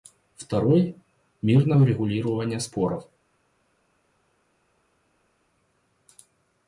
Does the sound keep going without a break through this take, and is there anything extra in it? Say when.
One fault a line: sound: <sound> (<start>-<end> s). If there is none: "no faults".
no faults